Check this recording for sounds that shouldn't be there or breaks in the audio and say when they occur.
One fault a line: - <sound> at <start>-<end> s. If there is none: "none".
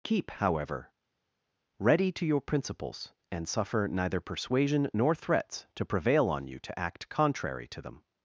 none